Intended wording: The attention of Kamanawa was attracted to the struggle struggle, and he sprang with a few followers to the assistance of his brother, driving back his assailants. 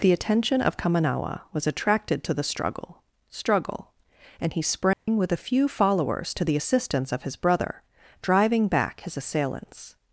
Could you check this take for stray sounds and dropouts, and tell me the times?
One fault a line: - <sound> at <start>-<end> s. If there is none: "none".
- dropout at 4.9-5.1 s